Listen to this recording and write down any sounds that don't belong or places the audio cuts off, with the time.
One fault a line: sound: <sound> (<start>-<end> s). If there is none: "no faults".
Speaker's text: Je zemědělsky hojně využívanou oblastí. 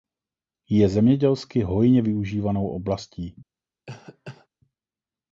sound: cough (3.9-4.5 s)